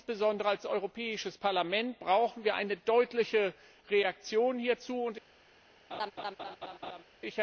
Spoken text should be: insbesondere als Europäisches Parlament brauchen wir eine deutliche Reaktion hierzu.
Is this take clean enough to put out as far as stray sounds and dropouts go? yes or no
no